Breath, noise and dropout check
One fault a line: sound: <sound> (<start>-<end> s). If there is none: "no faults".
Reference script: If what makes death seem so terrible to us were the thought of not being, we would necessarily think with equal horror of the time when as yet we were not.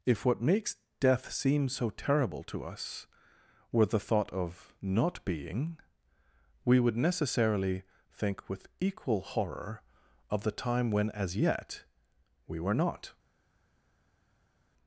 no faults